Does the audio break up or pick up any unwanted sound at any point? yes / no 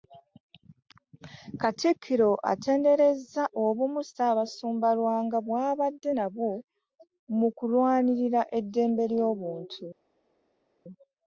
no